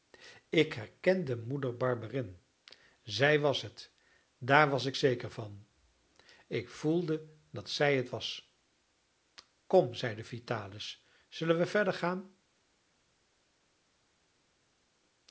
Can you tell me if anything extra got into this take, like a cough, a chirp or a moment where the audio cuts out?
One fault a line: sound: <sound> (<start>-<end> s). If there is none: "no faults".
no faults